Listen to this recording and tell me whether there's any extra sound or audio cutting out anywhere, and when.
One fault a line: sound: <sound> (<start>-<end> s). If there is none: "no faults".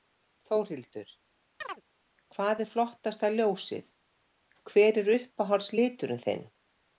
sound: chirp (1.6-1.8 s)